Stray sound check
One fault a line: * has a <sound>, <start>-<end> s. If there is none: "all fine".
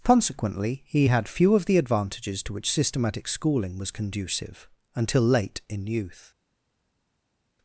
all fine